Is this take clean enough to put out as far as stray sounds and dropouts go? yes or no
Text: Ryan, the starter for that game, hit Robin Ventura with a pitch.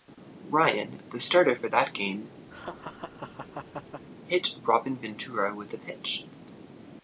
no